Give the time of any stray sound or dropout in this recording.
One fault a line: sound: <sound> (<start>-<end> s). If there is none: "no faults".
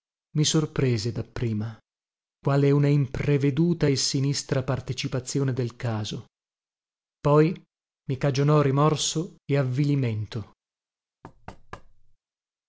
sound: thud (11.2-12.2 s)